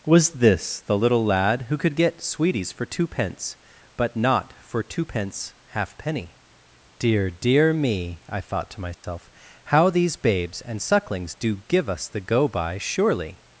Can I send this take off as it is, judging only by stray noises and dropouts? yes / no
no